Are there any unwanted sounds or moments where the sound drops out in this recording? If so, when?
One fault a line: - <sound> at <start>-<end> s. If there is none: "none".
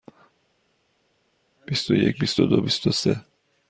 none